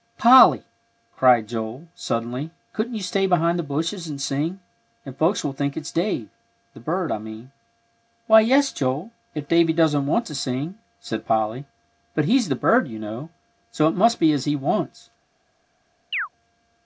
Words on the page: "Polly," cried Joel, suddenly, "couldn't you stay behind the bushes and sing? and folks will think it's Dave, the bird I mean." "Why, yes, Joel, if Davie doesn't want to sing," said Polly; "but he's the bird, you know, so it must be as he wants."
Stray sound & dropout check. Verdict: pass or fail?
fail